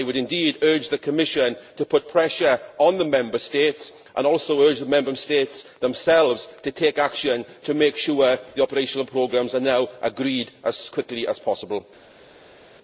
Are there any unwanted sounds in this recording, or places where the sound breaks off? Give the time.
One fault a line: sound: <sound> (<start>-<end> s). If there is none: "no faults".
no faults